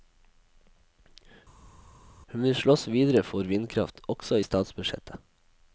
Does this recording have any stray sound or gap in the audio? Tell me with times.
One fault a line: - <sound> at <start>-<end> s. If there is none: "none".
none